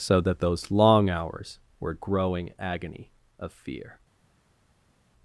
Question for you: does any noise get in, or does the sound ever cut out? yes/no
no